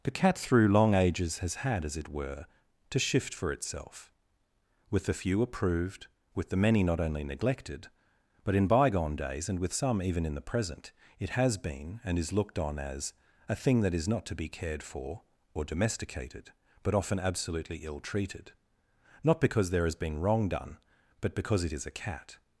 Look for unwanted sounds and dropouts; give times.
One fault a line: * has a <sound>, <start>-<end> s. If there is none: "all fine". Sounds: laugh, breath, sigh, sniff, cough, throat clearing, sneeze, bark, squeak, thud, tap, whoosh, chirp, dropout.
all fine